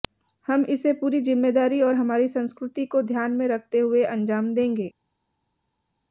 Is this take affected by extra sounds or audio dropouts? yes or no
no